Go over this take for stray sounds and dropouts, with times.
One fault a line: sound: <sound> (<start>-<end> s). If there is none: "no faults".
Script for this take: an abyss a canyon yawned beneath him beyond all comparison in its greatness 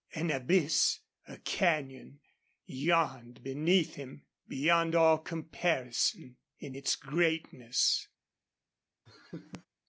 sound: laugh (9.1-9.7 s)